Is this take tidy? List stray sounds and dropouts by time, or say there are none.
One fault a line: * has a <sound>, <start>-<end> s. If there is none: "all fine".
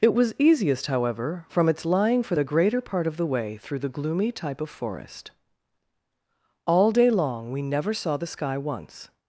all fine